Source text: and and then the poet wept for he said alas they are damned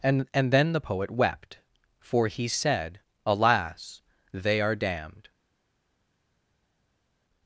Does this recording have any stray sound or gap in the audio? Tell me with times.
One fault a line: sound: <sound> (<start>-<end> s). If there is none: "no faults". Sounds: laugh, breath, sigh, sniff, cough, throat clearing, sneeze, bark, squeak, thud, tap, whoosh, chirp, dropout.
no faults